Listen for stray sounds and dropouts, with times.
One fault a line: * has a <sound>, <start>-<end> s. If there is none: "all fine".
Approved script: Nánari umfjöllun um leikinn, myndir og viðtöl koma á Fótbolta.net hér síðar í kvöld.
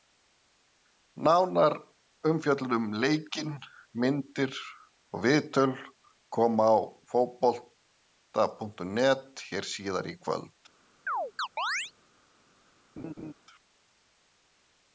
* has a chirp, 11.1-11.9 s
* has a laugh, 13.0-13.3 s